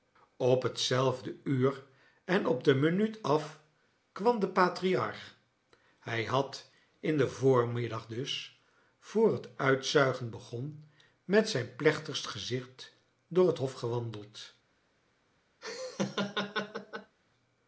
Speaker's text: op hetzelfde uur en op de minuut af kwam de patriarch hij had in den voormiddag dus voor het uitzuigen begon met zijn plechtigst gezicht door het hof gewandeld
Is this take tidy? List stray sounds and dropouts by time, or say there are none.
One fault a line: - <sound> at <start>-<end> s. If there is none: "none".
- laugh at 15.6-17.2 s